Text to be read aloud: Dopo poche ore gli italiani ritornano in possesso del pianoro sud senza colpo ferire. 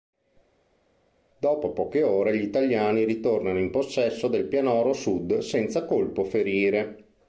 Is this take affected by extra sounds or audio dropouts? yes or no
no